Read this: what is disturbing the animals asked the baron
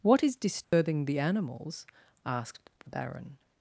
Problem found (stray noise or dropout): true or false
true